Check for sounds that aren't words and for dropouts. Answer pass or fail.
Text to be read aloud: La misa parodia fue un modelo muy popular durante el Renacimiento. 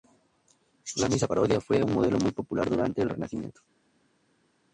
pass